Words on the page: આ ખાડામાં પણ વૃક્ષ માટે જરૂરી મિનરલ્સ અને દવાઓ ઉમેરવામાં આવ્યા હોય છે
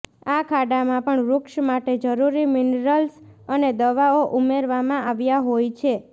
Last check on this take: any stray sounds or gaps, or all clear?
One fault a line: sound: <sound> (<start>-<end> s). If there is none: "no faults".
no faults